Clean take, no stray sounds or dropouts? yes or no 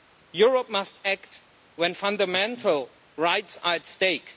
yes